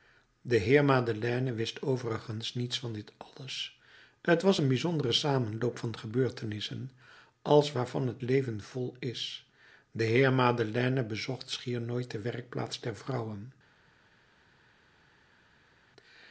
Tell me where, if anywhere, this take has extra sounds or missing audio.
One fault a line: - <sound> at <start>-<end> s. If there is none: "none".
none